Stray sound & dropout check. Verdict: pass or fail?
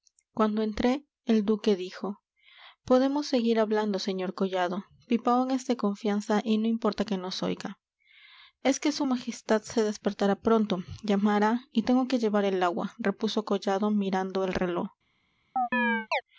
fail